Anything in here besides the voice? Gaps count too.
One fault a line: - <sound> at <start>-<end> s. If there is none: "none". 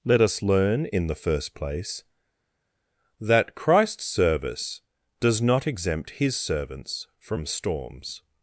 none